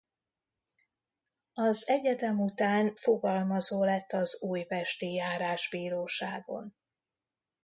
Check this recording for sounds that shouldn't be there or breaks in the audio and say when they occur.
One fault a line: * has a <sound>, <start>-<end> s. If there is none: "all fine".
all fine